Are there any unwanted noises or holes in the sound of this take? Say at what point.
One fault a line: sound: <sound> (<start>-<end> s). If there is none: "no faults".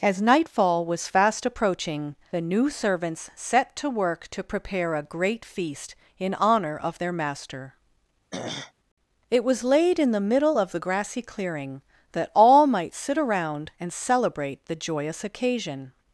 sound: throat clearing (8.3-8.7 s)